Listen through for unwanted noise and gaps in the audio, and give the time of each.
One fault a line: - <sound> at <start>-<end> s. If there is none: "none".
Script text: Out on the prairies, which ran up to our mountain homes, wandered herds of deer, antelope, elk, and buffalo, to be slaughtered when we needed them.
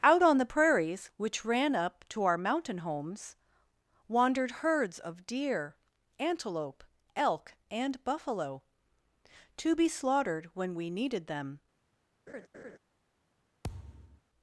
- laugh at 12.3-12.8 s
- thud at 13.6-14.2 s